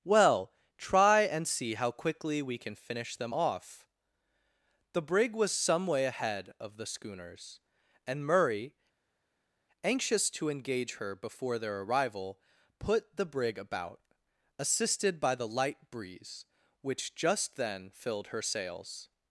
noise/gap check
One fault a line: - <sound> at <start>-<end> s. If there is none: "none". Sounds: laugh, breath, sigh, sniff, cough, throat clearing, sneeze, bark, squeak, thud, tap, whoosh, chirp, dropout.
none